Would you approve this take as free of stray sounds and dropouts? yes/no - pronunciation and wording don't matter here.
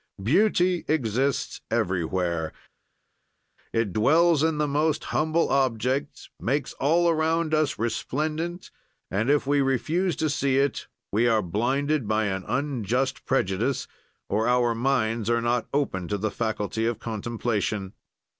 yes